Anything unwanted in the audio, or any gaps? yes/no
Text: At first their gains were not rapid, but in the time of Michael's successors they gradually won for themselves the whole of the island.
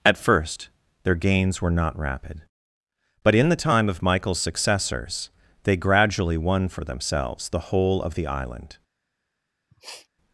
yes